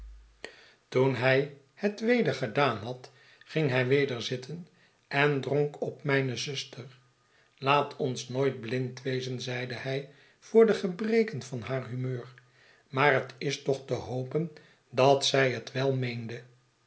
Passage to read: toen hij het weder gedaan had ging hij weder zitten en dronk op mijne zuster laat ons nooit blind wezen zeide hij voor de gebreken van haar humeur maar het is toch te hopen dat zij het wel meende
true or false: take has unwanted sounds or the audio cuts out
false